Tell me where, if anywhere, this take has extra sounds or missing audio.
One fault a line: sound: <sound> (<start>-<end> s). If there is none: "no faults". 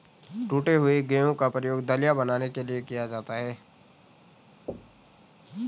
sound: thud (4.7-5.2 s)